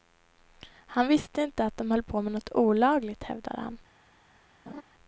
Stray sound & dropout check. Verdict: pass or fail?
fail